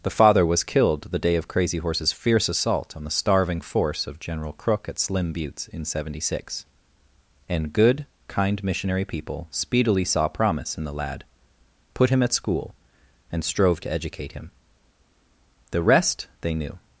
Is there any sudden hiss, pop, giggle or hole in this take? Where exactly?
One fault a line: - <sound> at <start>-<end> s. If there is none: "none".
none